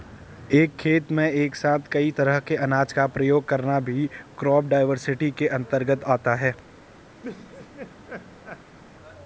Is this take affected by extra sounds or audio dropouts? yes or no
yes